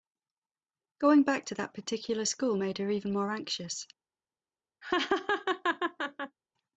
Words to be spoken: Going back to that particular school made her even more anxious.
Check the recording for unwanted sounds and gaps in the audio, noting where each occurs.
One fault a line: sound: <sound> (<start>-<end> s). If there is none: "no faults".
sound: laugh (4.8-6.4 s)